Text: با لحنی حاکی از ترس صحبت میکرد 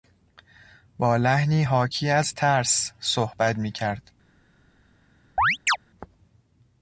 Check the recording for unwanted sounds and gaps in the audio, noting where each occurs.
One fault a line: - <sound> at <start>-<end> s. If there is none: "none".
- chirp at 5.4-5.8 s